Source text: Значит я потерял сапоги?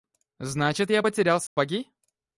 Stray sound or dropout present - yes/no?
yes